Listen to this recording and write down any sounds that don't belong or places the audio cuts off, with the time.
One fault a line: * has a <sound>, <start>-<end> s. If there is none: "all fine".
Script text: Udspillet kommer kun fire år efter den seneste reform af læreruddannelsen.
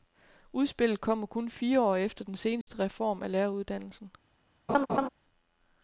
* has a dropout, 2.6-2.7 s
* has a laugh, 4.7-5.1 s